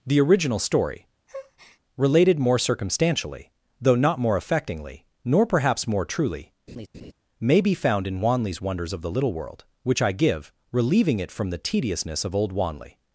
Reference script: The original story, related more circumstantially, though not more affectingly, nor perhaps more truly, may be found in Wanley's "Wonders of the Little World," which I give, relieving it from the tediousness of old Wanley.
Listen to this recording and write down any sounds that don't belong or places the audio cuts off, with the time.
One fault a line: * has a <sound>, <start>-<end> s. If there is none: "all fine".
* has a breath, 1.3-1.8 s
* has a laugh, 6.7-7.1 s